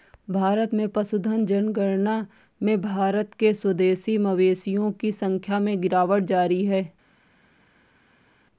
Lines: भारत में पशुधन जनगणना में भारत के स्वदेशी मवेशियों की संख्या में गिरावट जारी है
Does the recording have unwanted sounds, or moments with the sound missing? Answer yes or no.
no